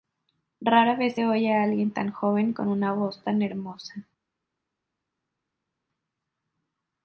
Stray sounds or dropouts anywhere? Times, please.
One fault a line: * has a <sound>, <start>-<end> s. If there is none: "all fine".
all fine